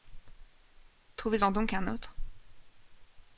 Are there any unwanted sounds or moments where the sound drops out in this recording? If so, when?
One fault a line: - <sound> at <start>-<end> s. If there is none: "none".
none